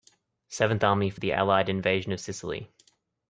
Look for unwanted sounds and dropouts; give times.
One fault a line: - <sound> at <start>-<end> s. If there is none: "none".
none